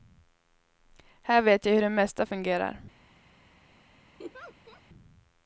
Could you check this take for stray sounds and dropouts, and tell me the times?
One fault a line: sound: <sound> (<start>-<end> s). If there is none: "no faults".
sound: laugh (4.2-4.8 s)